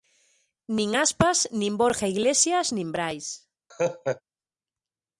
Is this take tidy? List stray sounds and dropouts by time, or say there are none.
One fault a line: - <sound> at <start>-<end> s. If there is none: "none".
- laugh at 3.7-4.2 s